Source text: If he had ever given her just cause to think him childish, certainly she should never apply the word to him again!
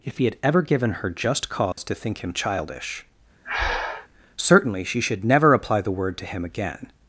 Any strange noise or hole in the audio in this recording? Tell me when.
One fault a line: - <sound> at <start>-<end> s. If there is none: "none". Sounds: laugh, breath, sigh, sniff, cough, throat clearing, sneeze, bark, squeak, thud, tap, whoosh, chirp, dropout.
- dropout at 1.7-1.8 s
- breath at 3.4-4.1 s